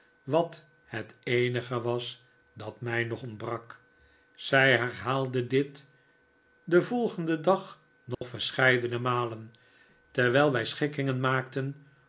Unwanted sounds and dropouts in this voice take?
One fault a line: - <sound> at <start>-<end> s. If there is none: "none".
- dropout at 8.1-8.2 s